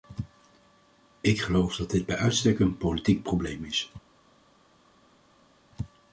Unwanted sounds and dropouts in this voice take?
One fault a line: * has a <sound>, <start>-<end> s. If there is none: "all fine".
all fine